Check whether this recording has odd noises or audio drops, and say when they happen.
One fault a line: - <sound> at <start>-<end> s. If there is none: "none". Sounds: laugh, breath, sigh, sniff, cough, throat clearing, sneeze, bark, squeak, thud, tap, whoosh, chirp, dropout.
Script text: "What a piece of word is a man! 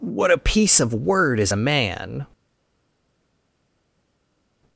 none